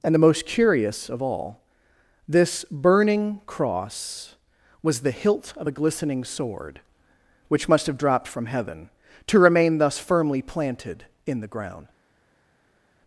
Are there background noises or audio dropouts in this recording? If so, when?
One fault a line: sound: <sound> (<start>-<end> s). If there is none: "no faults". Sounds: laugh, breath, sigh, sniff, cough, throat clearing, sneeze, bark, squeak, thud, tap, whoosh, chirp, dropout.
no faults